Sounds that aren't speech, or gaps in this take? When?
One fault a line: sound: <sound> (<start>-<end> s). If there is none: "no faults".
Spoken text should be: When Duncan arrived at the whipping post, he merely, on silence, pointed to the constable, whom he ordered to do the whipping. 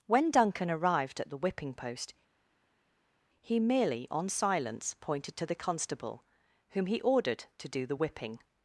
no faults